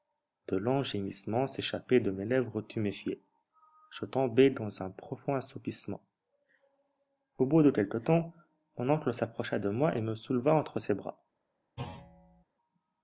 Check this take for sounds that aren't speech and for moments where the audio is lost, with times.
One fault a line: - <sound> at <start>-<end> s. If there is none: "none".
- thud at 11.8-12.4 s